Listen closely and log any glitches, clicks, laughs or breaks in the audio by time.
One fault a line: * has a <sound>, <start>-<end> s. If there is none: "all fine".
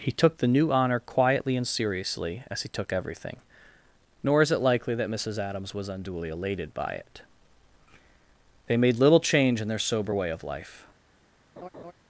* has a laugh, 11.6-11.9 s